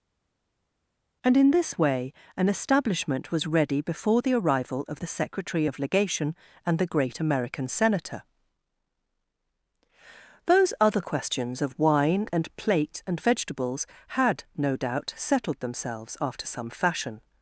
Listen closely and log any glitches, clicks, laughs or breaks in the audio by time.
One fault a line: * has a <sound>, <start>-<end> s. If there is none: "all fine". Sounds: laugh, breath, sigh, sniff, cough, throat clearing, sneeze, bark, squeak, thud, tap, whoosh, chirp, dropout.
all fine